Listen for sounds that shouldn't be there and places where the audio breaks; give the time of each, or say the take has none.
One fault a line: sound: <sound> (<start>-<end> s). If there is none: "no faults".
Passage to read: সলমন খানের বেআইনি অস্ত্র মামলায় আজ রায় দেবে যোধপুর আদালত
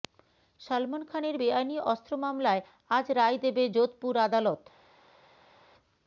no faults